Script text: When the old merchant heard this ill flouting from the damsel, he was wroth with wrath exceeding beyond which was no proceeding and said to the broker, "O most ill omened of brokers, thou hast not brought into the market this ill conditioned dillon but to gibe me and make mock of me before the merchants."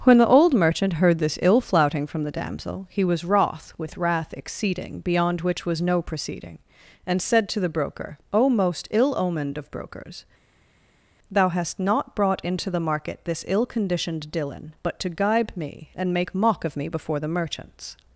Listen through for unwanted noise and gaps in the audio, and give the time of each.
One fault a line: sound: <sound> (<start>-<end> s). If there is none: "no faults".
no faults